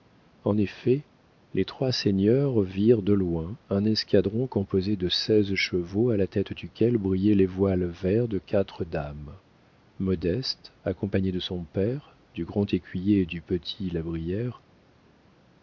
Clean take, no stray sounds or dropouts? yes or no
yes